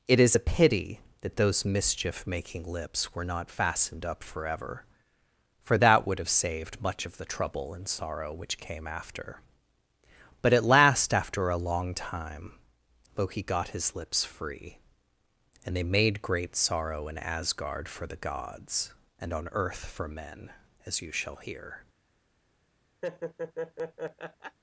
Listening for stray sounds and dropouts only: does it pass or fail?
fail